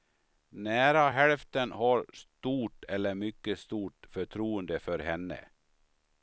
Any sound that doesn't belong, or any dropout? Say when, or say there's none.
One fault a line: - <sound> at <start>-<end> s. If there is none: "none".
none